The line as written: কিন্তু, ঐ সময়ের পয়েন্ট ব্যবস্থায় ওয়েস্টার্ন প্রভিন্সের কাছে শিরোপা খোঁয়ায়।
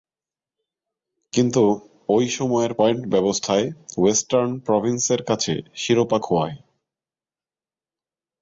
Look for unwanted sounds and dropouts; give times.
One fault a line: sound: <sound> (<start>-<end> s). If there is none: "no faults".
no faults